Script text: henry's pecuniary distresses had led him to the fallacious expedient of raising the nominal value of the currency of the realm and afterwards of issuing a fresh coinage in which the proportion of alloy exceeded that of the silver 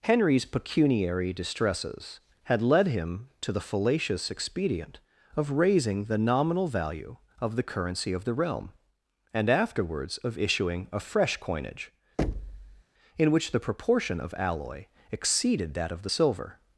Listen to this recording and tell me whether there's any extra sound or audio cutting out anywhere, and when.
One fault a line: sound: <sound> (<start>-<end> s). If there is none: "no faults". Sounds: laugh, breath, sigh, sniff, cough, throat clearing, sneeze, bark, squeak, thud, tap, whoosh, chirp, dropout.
sound: thud (12.2-12.8 s)